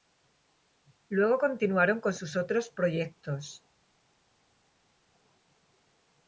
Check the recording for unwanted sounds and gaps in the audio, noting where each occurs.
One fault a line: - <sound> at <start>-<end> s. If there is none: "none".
none